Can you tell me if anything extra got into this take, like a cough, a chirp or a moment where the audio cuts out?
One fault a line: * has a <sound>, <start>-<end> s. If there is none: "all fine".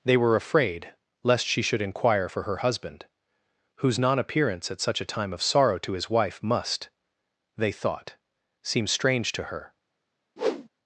* has a whoosh, 10.4-10.7 s